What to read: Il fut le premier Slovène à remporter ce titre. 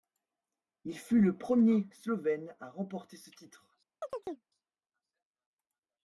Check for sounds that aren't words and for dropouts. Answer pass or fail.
fail